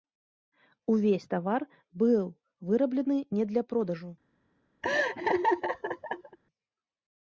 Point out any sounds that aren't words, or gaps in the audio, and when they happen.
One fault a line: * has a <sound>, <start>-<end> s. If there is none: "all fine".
* has a laugh, 4.8-6.4 s